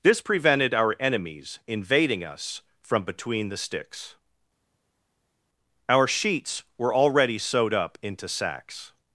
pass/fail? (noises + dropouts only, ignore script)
pass